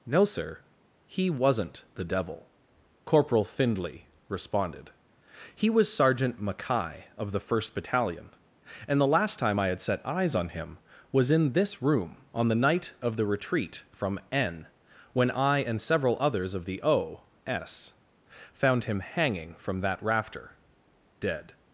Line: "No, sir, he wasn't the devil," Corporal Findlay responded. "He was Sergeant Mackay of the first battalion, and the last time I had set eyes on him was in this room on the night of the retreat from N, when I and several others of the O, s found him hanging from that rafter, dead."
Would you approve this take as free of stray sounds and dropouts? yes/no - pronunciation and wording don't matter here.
yes